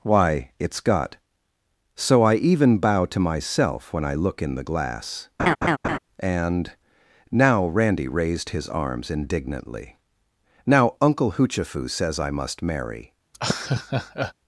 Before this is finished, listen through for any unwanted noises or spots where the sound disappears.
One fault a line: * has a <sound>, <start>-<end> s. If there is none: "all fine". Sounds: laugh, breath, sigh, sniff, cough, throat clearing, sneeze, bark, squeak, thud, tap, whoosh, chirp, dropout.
* has a laugh, 5.4-6.0 s
* has a laugh, 13.3-14.3 s